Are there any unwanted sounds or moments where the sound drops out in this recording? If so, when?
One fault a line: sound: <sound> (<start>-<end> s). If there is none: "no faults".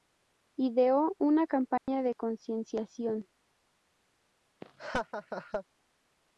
sound: dropout (1.8-1.9 s)
sound: laugh (4.6-5.6 s)